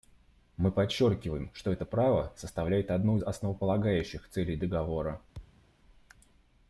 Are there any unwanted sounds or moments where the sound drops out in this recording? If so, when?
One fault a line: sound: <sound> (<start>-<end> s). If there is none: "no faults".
sound: thud (5.3-5.7 s)